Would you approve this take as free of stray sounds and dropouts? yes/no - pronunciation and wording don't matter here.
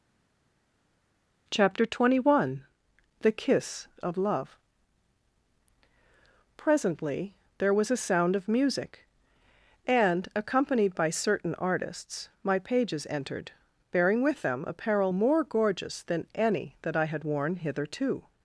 yes